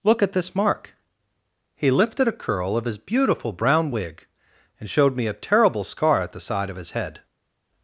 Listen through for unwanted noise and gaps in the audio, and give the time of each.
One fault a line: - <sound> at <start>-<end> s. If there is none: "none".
none